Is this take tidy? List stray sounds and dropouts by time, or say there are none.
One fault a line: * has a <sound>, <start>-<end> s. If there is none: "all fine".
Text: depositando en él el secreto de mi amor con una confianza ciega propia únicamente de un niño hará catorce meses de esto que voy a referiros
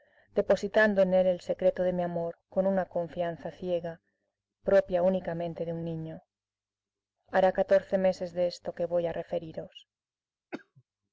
* has a cough, 10.5-10.8 s